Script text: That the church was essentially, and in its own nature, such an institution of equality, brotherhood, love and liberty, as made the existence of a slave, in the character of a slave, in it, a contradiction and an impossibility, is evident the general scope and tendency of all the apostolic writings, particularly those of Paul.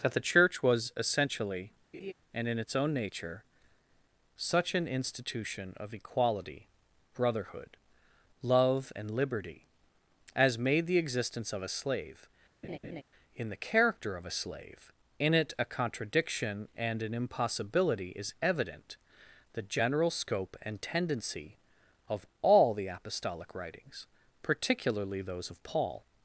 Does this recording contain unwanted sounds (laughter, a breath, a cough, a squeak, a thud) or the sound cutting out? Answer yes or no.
yes